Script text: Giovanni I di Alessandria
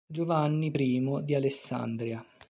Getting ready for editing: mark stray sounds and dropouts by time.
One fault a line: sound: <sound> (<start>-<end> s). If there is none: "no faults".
no faults